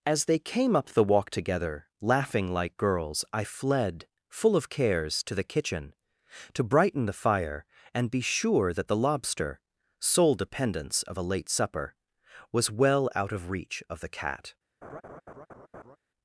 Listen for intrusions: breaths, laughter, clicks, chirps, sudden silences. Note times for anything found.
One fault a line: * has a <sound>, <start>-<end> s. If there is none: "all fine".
* has a laugh, 14.8-16.0 s